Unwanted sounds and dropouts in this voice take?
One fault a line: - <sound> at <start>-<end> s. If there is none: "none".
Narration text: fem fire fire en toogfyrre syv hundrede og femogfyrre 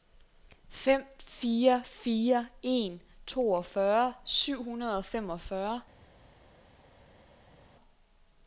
none